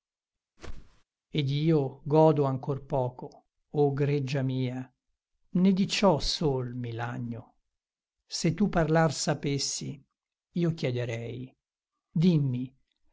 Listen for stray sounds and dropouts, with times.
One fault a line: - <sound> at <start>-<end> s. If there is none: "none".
- whoosh at 0.6-1.0 s